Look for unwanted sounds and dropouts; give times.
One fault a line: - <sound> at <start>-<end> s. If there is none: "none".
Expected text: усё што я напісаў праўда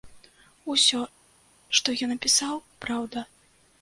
none